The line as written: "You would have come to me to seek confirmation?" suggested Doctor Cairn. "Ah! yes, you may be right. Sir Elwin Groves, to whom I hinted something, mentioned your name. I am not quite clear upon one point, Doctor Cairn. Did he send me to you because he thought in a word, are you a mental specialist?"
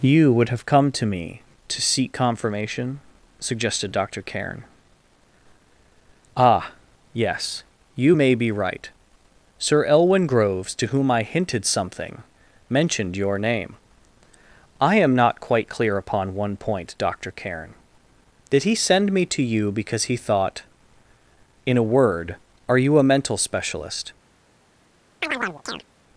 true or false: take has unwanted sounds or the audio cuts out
true